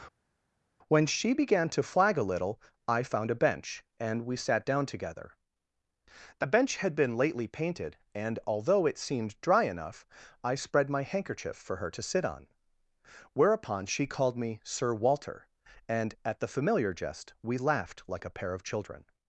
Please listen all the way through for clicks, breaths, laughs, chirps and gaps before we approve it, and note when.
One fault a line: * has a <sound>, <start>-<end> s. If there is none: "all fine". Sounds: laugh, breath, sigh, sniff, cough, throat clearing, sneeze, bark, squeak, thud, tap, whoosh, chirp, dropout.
all fine